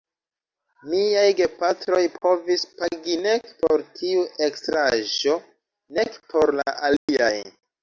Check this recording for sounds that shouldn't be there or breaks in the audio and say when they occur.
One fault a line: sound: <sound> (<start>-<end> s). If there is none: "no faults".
sound: dropout (7.0-7.1 s)